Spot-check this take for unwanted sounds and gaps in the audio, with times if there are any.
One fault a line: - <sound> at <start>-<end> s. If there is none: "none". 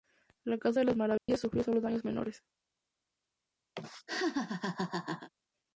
- dropout at 1.2-1.3 s
- laugh at 3.7-5.3 s